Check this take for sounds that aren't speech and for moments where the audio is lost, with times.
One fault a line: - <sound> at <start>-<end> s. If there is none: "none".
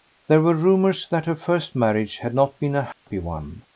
- dropout at 2.9-3.1 s